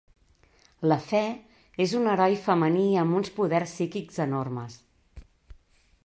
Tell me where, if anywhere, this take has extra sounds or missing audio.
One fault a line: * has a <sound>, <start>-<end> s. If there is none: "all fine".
all fine